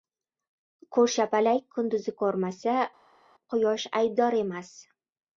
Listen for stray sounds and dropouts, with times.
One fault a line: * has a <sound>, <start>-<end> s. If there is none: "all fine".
all fine